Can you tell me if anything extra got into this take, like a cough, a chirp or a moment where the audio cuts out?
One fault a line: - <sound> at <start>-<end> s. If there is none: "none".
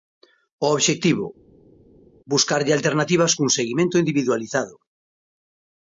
none